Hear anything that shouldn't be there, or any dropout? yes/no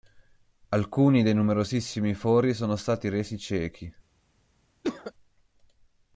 yes